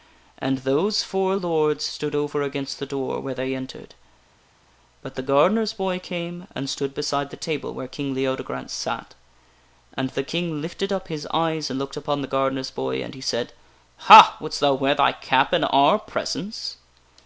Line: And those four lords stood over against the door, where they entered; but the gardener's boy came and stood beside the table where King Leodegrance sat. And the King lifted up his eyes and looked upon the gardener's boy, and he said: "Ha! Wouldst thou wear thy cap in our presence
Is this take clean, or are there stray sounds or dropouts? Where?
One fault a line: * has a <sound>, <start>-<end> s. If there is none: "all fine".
all fine